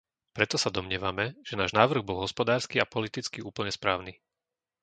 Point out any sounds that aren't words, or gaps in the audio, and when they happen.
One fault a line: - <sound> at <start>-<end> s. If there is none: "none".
none